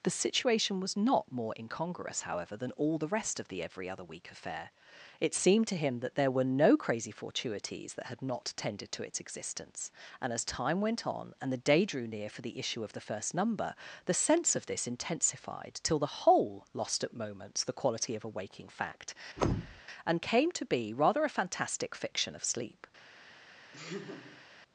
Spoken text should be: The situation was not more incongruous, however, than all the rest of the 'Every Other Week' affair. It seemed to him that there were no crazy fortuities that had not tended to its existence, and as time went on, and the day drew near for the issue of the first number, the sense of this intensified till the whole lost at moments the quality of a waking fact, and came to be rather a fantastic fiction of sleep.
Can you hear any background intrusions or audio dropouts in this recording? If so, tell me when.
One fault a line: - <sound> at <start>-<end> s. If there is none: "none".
- thud at 19.4-19.8 s
- laugh at 23.7-24.4 s